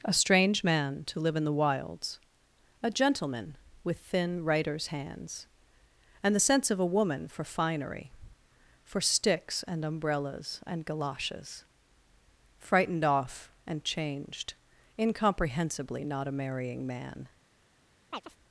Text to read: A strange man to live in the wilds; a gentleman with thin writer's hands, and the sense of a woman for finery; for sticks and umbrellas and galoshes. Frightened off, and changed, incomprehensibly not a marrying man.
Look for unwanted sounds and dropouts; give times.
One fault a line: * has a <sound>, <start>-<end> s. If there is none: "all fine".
* has a chirp, 18.1-18.4 s